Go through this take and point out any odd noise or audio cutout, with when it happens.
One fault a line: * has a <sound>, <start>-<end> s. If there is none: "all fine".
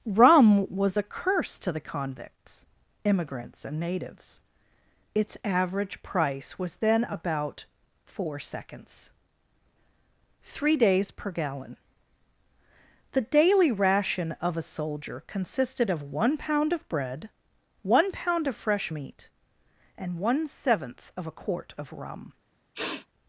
* has a sniff, 22.7-23.1 s